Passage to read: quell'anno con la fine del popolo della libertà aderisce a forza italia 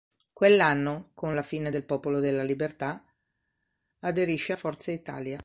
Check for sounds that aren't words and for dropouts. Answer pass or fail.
pass